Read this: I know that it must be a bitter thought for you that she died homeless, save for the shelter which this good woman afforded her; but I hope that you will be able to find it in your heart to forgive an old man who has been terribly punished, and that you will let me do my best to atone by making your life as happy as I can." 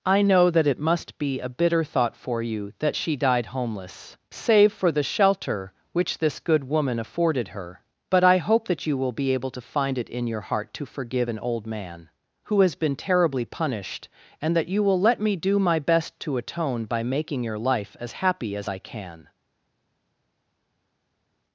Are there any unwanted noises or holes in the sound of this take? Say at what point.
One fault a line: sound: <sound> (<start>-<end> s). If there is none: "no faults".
no faults